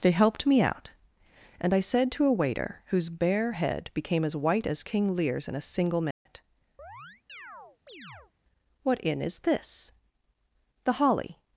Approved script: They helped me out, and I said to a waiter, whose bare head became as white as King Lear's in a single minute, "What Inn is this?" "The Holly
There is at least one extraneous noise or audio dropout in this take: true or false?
true